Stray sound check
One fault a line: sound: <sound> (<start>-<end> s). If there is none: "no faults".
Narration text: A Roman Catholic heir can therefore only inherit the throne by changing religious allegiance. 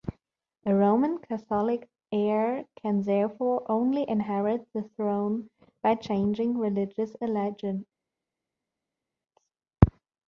no faults